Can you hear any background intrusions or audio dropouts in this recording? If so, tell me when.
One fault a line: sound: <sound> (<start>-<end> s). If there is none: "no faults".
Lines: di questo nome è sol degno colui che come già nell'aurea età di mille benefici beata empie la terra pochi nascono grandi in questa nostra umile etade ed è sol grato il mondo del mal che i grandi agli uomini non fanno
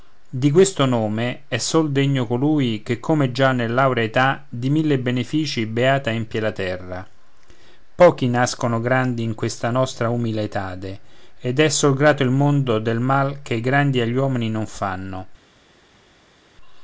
no faults